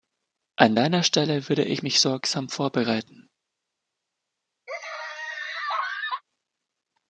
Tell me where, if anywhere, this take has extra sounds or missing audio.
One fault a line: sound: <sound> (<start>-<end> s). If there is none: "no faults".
sound: laugh (4.7-6.2 s)